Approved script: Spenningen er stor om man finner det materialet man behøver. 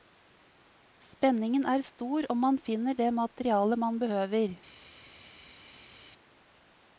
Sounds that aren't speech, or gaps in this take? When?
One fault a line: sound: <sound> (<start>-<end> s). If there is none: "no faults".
no faults